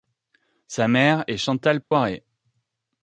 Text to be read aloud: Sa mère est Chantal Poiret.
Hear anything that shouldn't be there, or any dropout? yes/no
yes